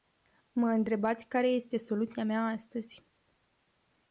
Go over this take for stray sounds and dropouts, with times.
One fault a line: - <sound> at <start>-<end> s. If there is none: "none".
none